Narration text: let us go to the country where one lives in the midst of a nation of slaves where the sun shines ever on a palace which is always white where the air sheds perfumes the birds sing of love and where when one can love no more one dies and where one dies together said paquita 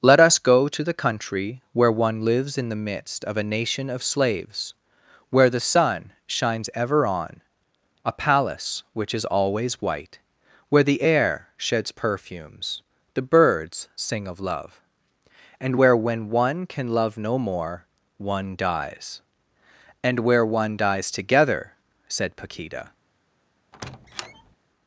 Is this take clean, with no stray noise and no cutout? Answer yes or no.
no